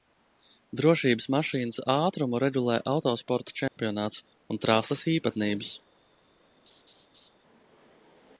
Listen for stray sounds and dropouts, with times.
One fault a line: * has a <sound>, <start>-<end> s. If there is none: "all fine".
* has a dropout, 3.7-3.8 s
* has a laugh, 6.7-7.3 s